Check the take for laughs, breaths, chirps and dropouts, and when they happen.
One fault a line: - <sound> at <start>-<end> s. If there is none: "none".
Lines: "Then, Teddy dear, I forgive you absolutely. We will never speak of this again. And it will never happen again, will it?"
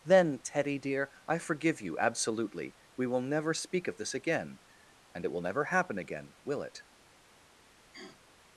- sniff at 7.9-8.2 s